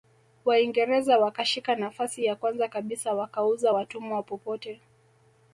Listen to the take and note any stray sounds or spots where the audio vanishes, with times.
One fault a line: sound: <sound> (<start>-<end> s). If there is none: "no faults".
no faults